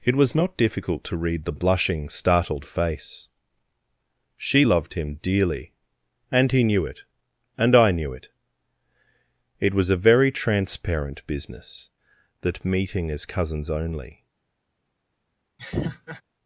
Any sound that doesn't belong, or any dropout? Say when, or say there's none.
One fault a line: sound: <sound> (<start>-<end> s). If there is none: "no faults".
sound: laugh (15.6-16.2 s)